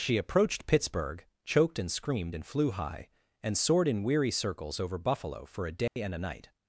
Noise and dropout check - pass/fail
fail